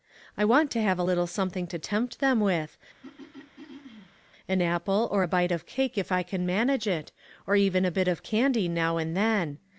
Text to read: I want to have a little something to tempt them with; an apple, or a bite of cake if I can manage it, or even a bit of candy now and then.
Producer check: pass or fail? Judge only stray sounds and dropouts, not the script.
fail